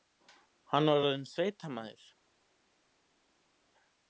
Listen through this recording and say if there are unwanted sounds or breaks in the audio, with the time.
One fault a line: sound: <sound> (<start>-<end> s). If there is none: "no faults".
no faults